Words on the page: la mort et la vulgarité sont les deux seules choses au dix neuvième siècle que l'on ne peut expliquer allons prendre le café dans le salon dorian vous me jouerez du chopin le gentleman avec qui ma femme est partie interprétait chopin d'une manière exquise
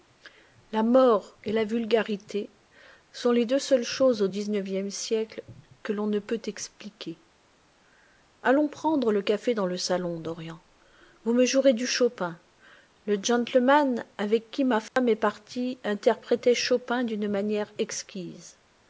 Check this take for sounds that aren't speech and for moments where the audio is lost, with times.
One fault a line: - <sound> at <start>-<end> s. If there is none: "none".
- dropout at 14.9-15.0 s